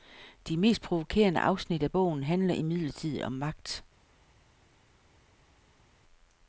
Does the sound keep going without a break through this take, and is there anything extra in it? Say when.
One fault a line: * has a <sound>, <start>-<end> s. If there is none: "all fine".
all fine